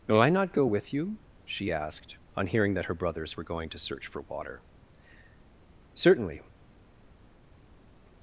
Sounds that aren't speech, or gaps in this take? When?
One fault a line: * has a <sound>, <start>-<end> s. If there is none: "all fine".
all fine